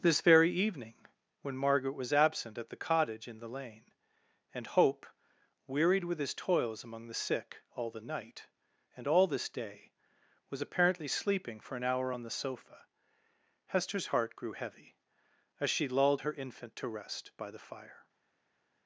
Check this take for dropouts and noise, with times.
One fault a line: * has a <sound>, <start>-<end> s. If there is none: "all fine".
all fine